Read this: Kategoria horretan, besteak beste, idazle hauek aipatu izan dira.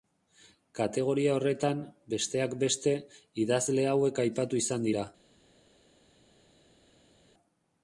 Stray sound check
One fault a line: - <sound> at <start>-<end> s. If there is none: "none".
none